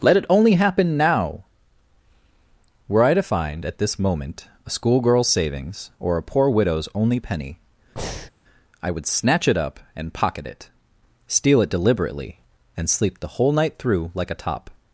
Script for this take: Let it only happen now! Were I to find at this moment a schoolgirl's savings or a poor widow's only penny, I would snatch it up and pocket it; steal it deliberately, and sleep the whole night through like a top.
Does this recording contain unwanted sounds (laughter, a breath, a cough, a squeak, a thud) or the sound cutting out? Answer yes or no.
yes